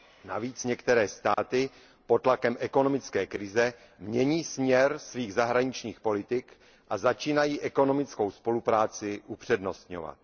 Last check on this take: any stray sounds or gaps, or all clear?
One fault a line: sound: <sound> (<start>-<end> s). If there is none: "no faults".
sound: dropout (1.3-1.4 s)